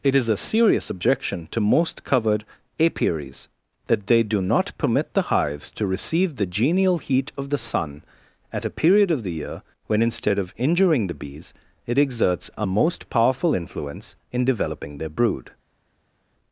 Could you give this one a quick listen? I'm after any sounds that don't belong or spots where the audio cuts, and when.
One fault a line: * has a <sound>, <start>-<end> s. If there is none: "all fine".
all fine